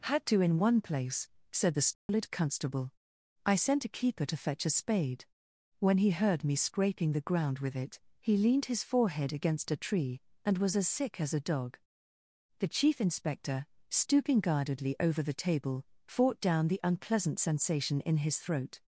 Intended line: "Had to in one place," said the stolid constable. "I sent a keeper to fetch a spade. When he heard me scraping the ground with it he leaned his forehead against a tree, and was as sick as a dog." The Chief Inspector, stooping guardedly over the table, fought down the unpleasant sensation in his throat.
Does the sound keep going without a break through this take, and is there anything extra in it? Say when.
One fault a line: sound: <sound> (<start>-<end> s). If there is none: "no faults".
sound: dropout (1.9-2.1 s)